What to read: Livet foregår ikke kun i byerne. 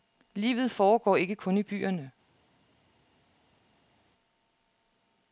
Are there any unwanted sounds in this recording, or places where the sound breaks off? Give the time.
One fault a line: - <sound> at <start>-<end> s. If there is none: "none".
none